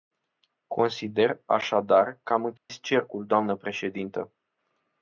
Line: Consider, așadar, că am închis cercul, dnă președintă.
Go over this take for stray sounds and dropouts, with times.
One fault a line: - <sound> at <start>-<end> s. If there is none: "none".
- dropout at 2.6-2.7 s